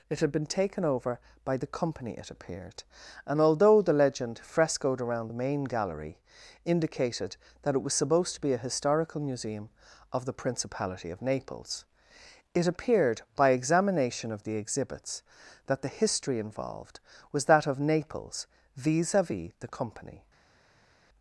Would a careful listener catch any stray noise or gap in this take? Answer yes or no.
no